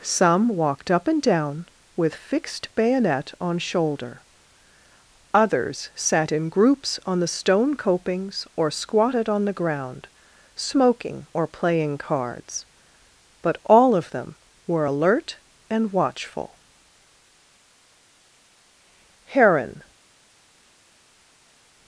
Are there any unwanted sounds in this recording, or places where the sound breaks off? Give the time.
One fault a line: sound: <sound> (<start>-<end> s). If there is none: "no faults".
no faults